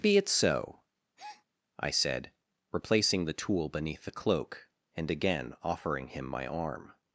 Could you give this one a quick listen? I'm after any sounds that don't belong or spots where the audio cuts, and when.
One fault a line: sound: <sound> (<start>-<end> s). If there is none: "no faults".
sound: breath (1.2-1.4 s)